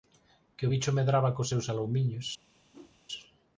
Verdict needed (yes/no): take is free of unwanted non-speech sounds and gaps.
no